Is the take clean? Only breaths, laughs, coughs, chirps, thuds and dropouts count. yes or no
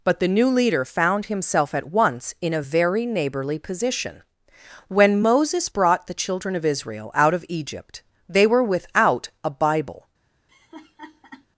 no